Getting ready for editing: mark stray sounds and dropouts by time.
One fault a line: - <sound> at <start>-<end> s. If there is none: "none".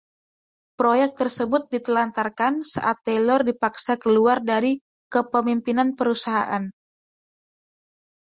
none